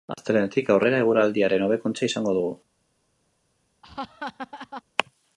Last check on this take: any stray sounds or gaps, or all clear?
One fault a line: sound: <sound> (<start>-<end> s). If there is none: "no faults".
sound: laugh (3.8-4.8 s)